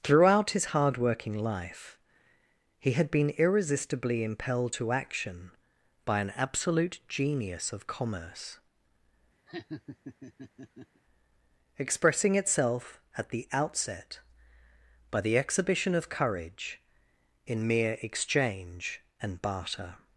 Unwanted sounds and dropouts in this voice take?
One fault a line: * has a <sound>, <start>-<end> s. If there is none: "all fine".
* has a laugh, 9.5-11.0 s